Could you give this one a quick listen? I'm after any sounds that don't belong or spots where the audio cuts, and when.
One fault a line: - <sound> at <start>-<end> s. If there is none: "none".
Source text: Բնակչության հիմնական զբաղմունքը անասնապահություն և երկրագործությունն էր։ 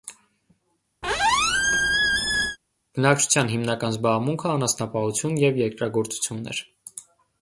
- squeak at 1.0-2.6 s